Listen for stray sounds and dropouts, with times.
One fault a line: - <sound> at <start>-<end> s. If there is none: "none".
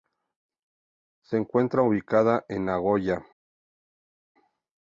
none